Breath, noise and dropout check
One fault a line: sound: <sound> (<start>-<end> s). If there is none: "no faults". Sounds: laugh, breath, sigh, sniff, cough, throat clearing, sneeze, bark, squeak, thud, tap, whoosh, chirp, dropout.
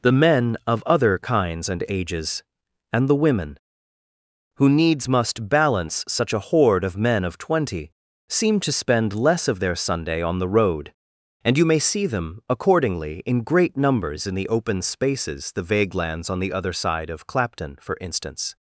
no faults